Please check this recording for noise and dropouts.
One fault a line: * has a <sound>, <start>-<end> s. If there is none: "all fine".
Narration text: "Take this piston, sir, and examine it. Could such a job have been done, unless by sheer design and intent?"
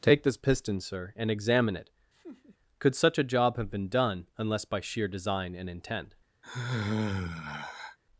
* has a laugh, 2.1-2.6 s
* has a sigh, 6.4-8.0 s